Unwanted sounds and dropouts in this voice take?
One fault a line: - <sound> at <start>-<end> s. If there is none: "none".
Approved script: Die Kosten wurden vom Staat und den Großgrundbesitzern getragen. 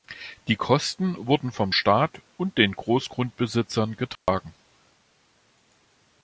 - dropout at 4.2-4.3 s